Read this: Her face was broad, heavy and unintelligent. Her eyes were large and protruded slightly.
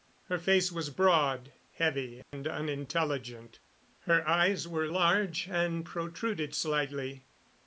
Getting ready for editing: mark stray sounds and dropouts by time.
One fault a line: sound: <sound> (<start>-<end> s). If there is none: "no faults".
sound: dropout (2.2-2.3 s)